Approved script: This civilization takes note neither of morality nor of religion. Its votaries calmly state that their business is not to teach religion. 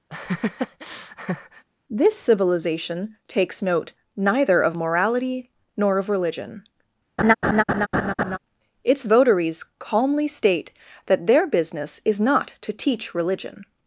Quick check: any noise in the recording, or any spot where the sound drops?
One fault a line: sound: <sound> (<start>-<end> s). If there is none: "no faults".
sound: laugh (0.1-1.7 s)
sound: laugh (7.2-8.4 s)